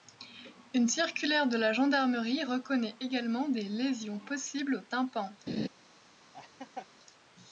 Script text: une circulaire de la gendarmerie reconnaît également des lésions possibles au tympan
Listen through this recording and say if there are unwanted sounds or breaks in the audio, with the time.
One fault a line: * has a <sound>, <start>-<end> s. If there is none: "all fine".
* has a laugh, 5.5-5.7 s
* has a laugh, 6.3-6.9 s